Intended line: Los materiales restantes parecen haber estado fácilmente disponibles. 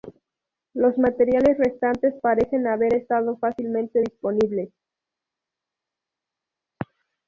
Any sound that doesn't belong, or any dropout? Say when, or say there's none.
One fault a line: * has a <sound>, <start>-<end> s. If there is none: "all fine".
all fine